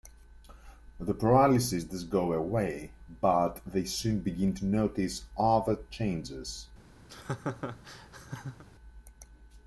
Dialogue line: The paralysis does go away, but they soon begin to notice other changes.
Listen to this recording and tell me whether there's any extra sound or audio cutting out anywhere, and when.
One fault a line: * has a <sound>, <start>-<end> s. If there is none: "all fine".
* has a laugh, 7.1-8.6 s